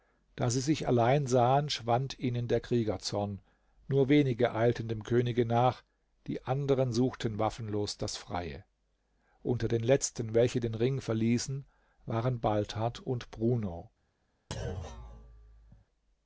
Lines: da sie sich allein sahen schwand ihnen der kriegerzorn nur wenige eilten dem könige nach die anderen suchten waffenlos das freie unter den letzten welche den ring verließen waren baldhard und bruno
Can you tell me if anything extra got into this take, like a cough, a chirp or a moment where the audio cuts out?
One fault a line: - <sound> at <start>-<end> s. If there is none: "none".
- thud at 14.5-15.9 s